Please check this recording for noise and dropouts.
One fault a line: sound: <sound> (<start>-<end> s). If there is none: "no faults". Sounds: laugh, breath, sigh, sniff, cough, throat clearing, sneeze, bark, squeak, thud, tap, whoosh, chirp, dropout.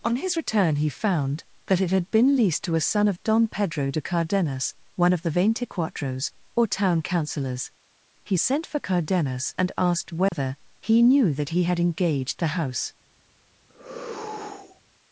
sound: dropout (10.3-10.3 s)
sound: sigh (13.7-14.8 s)